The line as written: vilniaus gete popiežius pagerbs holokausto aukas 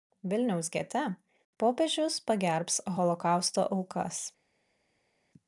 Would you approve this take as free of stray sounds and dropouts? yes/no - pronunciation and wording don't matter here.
yes